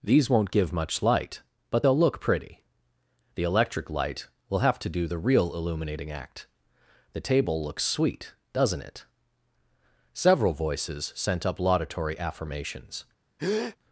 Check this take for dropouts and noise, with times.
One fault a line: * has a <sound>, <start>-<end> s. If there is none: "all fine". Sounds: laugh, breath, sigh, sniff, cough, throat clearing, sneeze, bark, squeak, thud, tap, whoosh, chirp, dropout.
* has a breath, 13.4-13.8 s